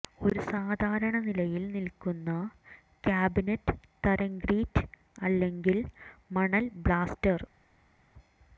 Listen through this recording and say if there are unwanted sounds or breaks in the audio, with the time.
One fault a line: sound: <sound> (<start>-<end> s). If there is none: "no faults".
no faults